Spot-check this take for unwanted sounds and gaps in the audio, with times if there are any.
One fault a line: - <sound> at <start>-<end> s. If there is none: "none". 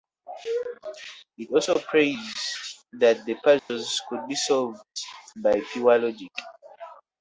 - dropout at 3.6-3.7 s